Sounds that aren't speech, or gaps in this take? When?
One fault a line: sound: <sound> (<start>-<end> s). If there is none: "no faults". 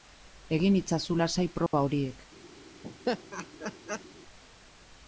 sound: dropout (1.7-1.7 s)
sound: laugh (2.8-4.1 s)